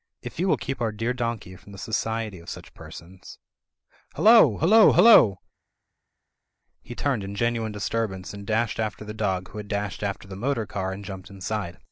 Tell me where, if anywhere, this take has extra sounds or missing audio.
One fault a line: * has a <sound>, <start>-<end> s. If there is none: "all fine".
all fine